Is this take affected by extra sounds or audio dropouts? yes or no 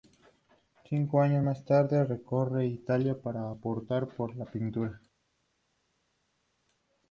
no